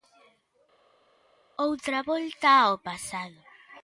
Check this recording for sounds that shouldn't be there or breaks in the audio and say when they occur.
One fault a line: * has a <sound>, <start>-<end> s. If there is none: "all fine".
all fine